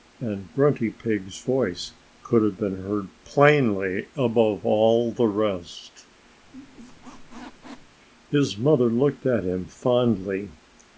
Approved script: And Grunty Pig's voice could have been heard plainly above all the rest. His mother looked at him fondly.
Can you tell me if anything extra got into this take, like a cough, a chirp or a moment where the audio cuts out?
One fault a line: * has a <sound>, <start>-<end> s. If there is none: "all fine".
* has a squeak, 6.4-8.0 s